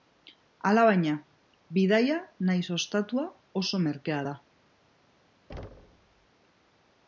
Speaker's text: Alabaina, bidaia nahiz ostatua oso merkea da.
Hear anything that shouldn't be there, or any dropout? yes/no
yes